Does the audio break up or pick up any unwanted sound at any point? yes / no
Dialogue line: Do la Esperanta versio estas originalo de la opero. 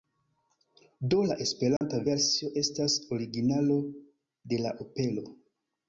yes